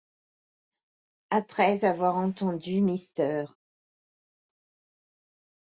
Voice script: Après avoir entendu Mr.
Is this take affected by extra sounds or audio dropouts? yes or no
no